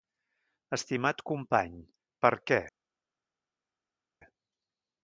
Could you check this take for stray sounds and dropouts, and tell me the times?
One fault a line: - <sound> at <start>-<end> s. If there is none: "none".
none